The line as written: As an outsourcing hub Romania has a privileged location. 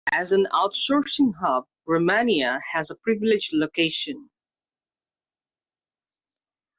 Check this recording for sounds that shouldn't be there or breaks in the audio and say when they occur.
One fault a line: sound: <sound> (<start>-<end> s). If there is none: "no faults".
no faults